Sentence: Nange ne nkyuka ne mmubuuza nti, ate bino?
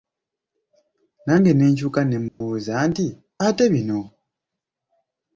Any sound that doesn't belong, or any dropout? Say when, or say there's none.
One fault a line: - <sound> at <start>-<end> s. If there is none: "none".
- dropout at 2.3-2.4 s